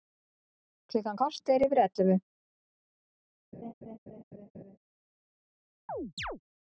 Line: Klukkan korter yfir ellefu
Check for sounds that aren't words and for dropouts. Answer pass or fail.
fail